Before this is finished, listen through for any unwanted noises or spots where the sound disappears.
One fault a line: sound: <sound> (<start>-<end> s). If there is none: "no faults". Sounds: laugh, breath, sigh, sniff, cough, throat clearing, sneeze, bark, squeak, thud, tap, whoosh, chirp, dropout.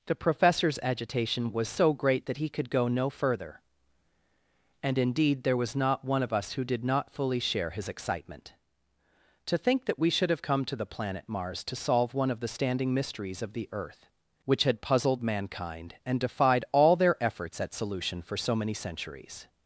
no faults